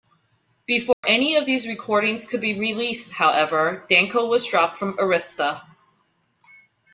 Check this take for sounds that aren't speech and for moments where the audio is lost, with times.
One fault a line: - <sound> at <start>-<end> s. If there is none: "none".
- dropout at 0.9-1.0 s